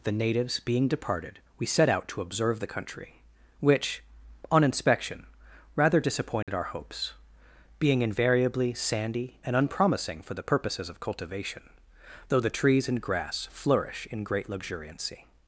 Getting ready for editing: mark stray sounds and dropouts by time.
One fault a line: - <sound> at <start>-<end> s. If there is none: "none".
- dropout at 6.4-6.5 s